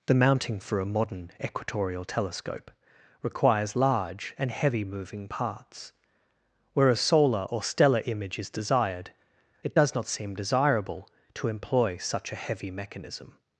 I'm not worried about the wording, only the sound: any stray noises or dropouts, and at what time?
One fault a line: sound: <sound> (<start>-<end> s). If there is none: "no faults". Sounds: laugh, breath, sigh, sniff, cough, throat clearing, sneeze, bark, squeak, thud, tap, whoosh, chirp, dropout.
no faults